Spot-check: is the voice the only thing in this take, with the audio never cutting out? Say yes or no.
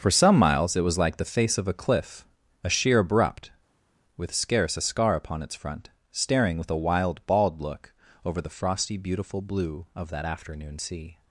yes